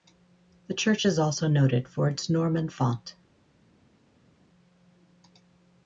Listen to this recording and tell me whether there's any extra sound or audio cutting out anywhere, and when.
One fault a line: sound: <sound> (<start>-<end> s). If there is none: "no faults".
no faults